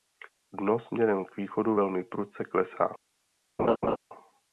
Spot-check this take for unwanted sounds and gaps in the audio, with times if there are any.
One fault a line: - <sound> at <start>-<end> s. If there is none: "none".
- laugh at 3.6-4.0 s